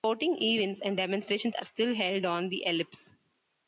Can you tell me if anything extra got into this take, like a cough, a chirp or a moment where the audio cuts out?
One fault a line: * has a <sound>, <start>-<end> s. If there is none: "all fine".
all fine